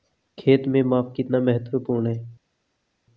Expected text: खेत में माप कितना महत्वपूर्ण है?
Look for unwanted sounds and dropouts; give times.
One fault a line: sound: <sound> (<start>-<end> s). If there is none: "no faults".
no faults